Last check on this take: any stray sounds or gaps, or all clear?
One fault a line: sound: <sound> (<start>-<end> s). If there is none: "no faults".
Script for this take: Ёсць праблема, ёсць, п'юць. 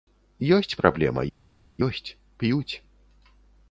no faults